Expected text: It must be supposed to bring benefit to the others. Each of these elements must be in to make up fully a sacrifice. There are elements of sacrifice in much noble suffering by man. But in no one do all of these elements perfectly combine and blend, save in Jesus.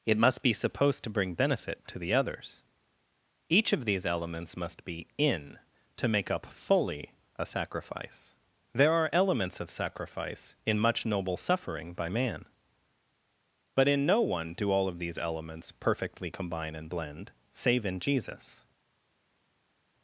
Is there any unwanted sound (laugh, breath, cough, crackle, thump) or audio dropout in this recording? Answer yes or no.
no